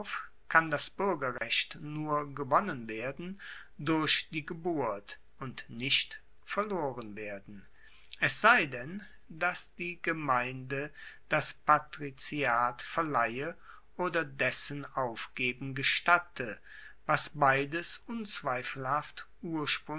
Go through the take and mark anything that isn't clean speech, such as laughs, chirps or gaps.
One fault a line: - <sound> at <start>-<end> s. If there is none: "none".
- dropout at 1.4-1.4 s